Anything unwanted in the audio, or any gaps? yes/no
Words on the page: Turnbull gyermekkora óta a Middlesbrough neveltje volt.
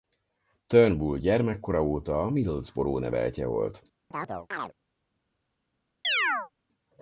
yes